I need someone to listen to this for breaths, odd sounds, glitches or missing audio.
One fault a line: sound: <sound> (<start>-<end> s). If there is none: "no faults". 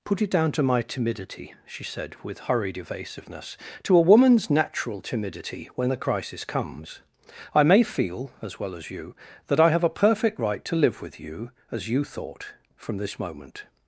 no faults